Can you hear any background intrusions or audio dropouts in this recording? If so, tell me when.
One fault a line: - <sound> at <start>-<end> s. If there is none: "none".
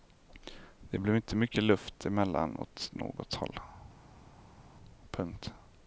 none